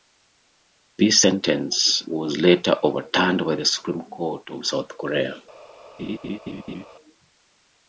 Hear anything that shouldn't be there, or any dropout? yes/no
yes